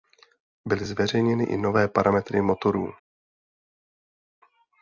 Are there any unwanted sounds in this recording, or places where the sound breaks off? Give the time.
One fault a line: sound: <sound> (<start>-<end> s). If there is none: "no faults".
no faults